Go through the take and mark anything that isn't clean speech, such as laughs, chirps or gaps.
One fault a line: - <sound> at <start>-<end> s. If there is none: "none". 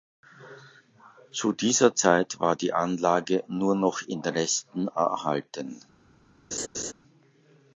- laugh at 6.5-6.9 s